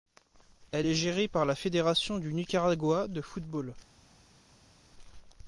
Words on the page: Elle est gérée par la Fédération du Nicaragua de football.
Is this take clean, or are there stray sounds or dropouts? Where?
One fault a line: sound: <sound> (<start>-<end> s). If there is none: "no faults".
no faults